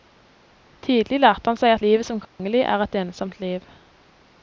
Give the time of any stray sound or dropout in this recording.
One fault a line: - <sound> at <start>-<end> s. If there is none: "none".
- dropout at 2.2-2.4 s